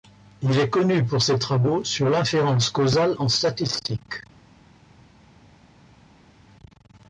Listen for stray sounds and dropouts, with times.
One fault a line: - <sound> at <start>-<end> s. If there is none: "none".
none